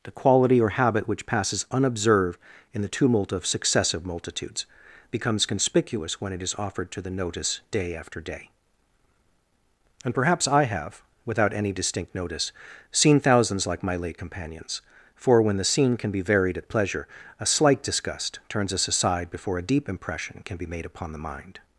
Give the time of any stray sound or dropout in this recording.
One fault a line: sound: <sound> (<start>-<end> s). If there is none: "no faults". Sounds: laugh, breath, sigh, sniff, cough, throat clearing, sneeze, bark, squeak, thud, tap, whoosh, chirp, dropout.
no faults